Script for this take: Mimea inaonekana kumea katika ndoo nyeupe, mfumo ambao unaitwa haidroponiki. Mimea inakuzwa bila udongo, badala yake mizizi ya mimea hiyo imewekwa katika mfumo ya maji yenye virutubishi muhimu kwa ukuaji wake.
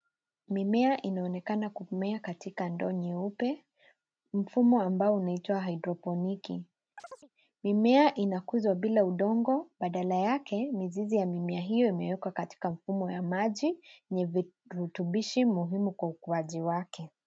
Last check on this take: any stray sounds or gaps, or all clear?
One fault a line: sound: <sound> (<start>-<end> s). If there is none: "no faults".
sound: chirp (7.0-7.3 s)